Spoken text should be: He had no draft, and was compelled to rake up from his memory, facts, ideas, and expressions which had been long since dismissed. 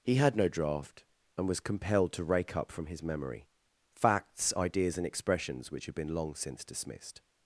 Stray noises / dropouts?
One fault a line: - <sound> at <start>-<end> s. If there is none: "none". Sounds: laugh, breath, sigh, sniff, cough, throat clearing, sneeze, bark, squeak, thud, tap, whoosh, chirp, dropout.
none